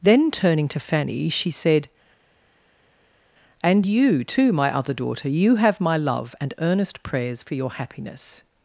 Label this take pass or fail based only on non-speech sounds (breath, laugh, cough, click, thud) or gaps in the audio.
pass